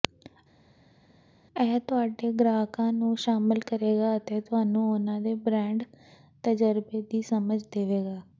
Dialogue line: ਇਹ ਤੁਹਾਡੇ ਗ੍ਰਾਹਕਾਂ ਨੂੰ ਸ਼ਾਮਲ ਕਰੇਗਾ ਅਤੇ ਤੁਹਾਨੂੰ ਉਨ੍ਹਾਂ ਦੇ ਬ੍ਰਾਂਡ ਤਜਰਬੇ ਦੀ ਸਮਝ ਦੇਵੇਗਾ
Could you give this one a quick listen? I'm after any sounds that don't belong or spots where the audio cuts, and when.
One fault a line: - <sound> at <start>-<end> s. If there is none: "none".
none